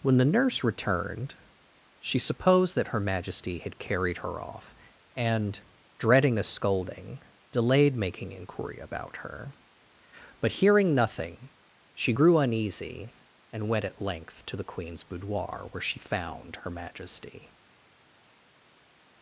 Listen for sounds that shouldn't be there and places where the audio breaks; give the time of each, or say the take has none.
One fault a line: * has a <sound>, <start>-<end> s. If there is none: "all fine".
all fine